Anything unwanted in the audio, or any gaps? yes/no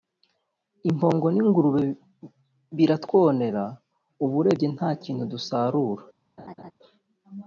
yes